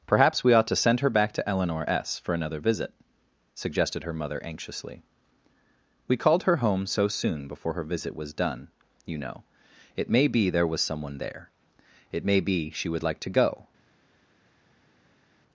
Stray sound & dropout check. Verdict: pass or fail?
pass